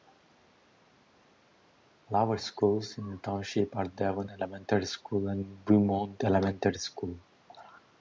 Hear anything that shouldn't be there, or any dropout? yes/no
no